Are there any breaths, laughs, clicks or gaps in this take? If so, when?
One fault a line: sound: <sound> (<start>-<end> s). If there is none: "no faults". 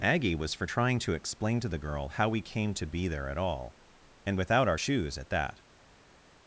no faults